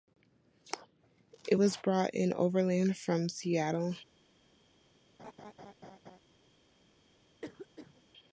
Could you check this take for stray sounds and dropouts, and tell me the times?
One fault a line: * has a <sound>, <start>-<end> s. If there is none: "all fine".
* has a laugh, 5.2-6.2 s
* has a cough, 7.4-8.0 s